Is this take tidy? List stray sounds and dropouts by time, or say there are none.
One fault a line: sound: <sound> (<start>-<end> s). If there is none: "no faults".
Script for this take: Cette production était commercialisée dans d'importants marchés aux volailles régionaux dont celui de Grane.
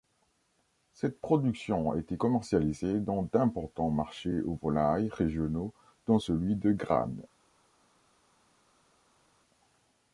no faults